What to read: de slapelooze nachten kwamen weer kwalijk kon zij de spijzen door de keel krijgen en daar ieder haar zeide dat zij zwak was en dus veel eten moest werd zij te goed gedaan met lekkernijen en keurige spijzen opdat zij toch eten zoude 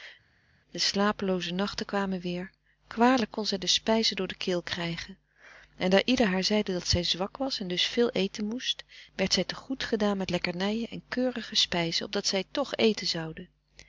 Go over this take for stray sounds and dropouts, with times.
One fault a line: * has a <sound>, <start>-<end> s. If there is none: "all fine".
all fine